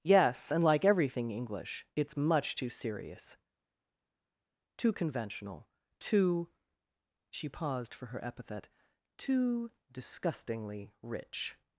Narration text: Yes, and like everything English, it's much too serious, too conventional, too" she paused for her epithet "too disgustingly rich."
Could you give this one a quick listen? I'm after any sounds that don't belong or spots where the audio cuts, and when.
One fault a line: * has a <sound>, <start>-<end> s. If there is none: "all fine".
all fine